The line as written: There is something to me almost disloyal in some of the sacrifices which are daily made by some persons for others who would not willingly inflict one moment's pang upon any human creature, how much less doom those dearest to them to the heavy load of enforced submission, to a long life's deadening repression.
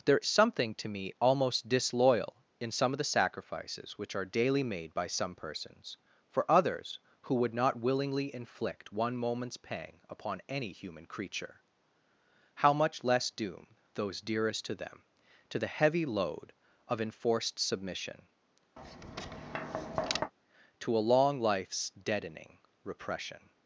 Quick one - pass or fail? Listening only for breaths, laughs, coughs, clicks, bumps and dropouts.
fail